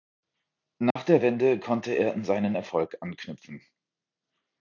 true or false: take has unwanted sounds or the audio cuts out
true